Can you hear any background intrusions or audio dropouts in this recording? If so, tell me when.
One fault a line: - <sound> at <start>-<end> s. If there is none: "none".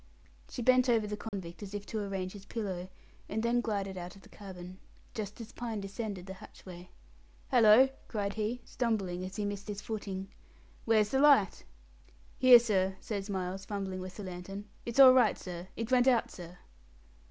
- dropout at 1.3-1.3 s